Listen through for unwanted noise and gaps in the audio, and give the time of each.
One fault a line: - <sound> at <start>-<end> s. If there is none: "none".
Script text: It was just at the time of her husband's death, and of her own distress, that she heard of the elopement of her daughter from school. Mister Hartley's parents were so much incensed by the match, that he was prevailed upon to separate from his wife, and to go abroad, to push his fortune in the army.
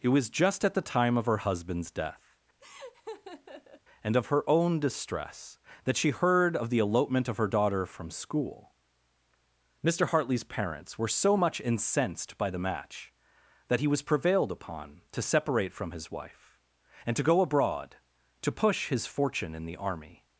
- laugh at 2.6-3.8 s